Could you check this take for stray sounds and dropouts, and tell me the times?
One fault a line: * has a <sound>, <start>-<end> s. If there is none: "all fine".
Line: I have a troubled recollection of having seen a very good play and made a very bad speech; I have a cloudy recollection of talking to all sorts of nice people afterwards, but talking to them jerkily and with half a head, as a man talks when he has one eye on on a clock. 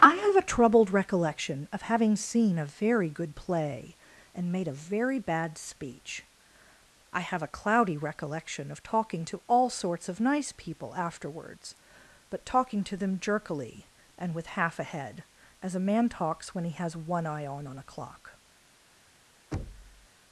* has a thud, 19.5-20.1 s